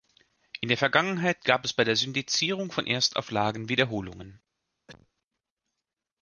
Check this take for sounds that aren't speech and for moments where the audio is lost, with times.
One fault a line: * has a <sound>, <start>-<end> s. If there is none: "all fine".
* has a cough, 4.9-5.1 s